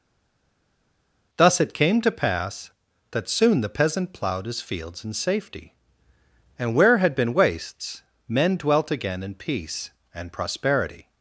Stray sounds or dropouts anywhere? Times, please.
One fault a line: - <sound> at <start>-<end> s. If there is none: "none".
none